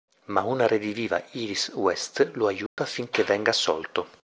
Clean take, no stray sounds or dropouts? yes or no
no